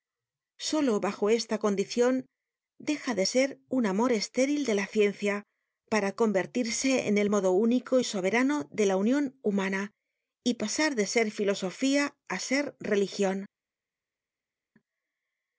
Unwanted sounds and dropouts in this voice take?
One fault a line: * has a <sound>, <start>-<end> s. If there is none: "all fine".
all fine